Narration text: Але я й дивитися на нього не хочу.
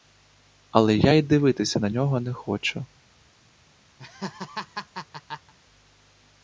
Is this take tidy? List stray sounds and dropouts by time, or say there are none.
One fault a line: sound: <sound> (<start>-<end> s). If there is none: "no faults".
sound: laugh (4.0-5.5 s)